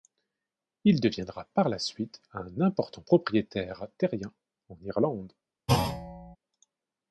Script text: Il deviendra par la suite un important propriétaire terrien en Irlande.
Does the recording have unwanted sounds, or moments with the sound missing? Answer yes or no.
yes